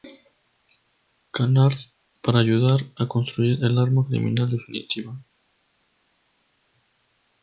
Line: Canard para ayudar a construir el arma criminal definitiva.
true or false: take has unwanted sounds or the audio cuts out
false